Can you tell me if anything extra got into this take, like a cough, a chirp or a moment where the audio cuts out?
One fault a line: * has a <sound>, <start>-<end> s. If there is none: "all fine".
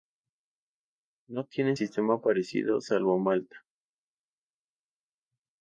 all fine